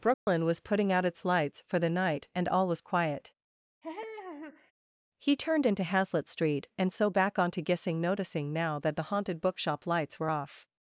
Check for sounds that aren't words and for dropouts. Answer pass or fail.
fail